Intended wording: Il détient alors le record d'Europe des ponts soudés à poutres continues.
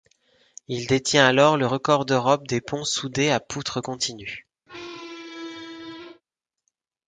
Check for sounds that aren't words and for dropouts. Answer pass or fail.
fail